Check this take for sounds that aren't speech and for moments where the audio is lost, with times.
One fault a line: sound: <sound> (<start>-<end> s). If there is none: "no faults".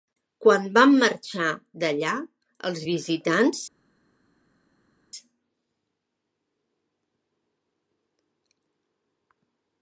no faults